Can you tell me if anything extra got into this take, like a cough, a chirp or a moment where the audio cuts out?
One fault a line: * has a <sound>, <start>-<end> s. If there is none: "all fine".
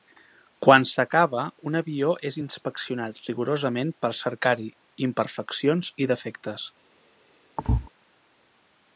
* has a thud, 7.6-7.9 s